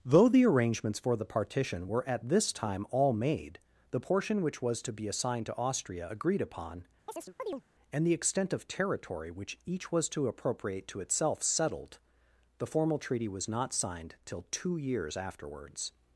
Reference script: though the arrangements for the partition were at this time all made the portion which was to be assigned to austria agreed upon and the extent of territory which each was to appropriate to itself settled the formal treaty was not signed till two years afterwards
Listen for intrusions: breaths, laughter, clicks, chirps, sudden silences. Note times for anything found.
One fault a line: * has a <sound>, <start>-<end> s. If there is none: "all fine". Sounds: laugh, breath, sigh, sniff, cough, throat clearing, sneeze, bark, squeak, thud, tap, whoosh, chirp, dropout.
* has a chirp, 7.1-7.6 s